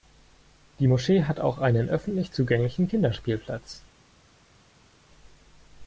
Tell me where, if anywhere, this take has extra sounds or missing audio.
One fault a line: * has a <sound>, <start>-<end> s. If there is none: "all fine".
all fine